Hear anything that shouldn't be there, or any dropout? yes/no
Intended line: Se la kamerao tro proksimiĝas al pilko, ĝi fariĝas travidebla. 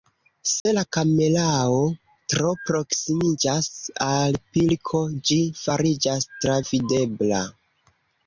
yes